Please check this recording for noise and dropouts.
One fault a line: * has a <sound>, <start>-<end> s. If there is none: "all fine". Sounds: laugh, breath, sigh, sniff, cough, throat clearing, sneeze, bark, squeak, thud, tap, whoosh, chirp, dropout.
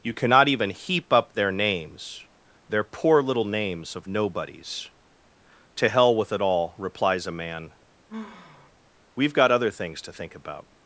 * has a sigh, 8.1-8.7 s